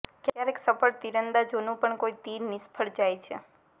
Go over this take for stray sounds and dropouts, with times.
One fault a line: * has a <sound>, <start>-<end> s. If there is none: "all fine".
all fine